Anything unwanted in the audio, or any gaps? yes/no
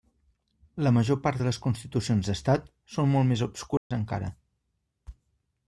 yes